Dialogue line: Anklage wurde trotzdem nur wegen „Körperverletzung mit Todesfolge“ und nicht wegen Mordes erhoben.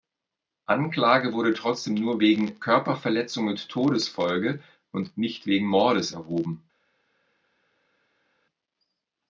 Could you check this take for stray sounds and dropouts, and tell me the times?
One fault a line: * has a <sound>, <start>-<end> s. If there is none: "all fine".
all fine